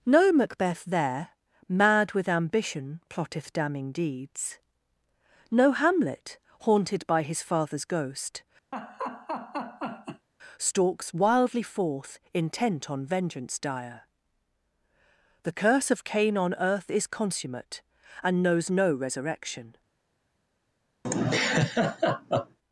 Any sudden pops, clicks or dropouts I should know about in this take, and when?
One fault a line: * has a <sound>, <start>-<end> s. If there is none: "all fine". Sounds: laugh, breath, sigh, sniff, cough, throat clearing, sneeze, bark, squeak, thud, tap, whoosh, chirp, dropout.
* has a laugh, 8.7-10.3 s
* has a laugh, 21.0-22.6 s